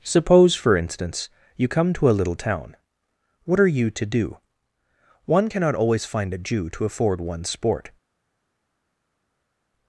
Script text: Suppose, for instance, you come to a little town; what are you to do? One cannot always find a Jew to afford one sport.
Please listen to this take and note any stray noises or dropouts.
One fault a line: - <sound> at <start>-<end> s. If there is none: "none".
none